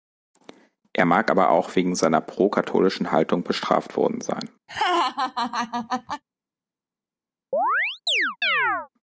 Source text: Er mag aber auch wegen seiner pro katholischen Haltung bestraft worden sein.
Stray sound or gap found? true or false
true